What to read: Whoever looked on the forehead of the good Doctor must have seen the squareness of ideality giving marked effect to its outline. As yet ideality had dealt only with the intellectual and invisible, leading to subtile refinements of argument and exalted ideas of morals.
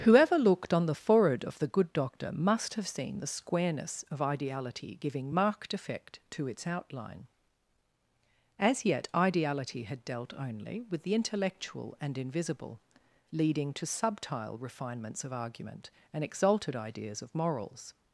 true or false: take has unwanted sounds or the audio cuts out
false